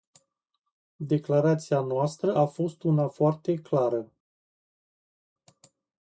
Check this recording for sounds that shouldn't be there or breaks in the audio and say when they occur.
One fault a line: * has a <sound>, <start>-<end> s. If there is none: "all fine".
all fine